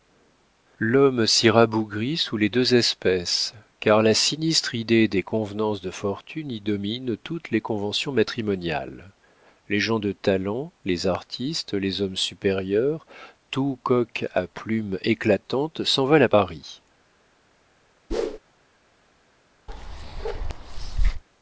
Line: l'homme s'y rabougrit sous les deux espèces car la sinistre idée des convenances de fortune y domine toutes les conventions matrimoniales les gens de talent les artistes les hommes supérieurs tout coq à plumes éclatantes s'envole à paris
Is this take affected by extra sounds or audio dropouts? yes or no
yes